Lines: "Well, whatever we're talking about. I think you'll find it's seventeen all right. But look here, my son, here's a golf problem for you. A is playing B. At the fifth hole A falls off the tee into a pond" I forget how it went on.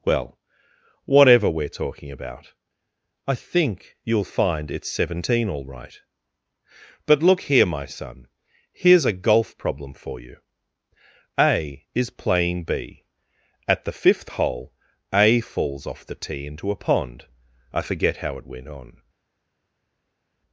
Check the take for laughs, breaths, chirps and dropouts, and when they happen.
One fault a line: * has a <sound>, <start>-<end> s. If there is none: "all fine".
all fine